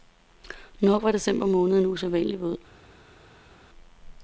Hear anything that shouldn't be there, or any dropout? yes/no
no